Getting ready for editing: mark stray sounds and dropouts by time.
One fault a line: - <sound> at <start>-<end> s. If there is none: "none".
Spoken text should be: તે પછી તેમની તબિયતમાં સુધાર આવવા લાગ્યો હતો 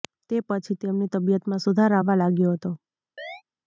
- chirp at 3.2-3.4 s